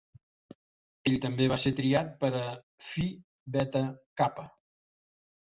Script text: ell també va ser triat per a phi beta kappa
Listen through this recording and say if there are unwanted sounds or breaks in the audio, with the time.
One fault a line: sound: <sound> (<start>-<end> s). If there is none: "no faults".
no faults